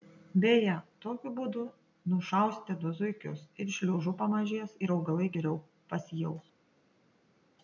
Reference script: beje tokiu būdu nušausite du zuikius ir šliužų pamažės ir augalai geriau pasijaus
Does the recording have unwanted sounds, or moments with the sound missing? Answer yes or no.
no